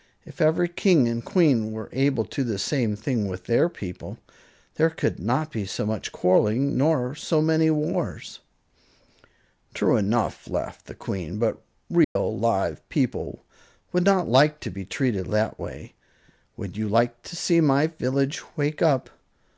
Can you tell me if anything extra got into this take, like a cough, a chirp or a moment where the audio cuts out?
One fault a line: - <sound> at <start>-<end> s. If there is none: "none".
- dropout at 12.0-12.2 s